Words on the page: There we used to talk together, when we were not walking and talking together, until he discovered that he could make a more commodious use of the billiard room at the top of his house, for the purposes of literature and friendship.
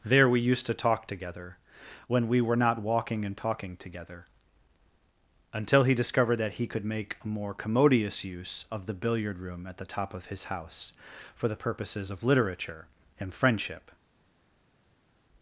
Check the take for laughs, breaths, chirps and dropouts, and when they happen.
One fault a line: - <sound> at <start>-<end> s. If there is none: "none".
none